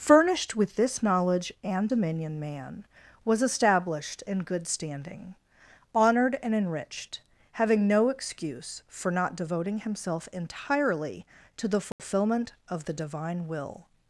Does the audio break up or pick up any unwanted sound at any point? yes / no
yes